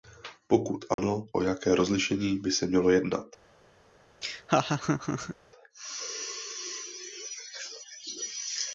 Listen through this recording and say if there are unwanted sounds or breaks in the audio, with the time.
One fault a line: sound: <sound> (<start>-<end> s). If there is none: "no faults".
sound: dropout (0.9-1.0 s)
sound: laugh (4.2-5.4 s)